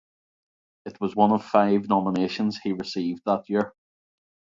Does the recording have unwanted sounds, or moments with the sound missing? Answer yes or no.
no